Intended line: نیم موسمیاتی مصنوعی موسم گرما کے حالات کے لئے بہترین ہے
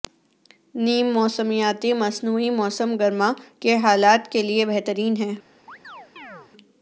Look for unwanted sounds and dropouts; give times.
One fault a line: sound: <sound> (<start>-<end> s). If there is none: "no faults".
sound: chirp (5.7-6.5 s)